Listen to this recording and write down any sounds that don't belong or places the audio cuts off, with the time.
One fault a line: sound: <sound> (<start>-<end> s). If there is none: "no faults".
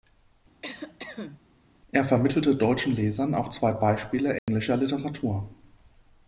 sound: cough (0.6-1.4 s)
sound: dropout (4.4-4.5 s)